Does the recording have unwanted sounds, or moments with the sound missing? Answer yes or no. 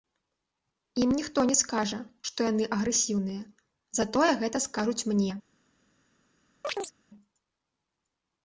yes